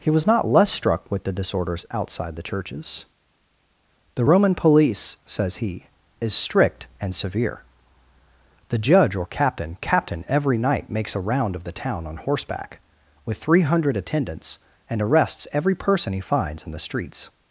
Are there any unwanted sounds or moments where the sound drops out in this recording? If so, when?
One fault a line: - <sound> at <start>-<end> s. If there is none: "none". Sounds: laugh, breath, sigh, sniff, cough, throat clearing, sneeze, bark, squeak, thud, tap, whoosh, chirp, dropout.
none